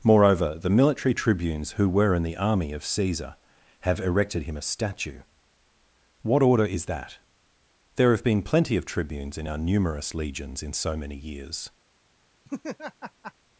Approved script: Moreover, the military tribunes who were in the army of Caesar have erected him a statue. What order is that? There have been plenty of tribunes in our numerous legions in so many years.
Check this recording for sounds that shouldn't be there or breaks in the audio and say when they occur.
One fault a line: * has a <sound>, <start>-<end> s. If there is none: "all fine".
* has a laugh, 12.4-13.3 s